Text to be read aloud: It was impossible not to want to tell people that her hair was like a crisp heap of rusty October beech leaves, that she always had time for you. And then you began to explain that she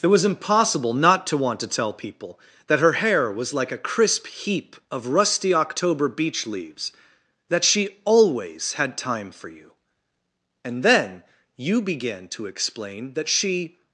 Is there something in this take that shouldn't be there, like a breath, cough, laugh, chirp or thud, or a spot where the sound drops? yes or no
no